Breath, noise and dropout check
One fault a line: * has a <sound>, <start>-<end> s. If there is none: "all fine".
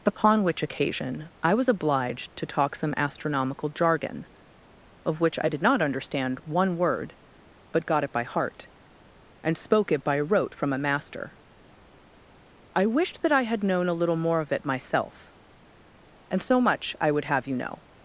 all fine